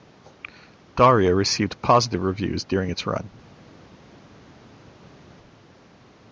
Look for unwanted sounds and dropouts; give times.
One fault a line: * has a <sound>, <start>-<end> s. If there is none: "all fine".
all fine